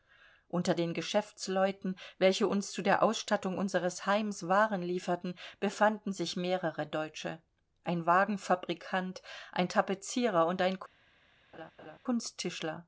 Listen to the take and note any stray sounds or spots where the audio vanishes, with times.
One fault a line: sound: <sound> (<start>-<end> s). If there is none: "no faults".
sound: laugh (11.5-12.0 s)